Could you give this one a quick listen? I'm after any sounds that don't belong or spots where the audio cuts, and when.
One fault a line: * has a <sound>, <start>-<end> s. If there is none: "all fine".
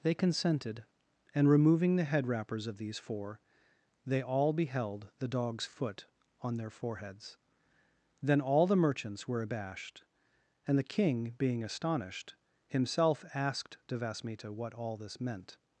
all fine